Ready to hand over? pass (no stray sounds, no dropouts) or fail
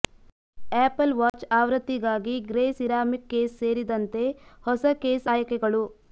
fail